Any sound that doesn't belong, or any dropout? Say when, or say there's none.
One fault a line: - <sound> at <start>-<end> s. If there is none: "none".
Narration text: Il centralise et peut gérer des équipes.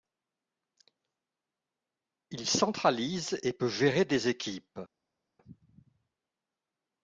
none